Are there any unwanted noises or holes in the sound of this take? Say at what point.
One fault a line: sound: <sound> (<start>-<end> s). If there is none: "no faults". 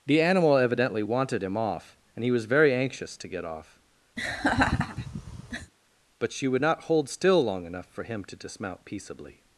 sound: laugh (4.2-5.7 s)